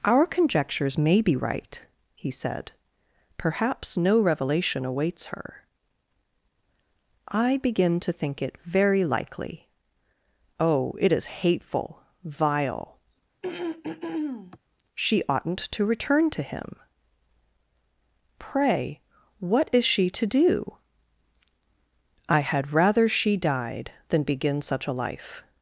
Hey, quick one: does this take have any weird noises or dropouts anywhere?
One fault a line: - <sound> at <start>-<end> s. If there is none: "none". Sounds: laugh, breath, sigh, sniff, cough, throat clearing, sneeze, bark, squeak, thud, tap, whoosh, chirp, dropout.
- throat clearing at 13.4-14.6 s